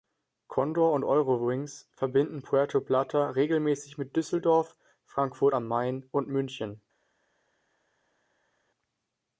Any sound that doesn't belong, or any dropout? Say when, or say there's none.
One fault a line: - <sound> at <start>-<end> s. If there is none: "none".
none